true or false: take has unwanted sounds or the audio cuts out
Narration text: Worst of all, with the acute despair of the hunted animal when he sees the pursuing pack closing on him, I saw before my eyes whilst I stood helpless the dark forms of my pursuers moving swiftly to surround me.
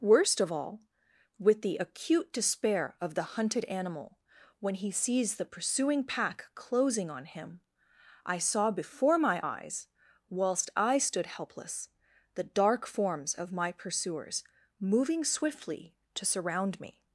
false